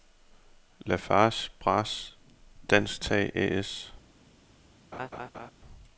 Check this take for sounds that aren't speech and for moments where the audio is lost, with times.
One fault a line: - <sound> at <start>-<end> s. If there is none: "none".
- laugh at 4.9-5.5 s